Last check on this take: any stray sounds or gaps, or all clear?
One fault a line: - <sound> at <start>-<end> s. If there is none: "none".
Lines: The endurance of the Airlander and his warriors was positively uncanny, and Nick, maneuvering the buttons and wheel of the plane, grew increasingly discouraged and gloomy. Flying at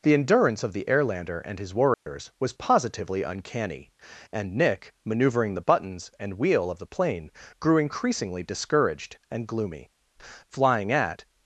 - dropout at 1.9-2.1 s